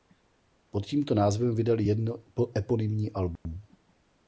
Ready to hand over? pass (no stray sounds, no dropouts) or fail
fail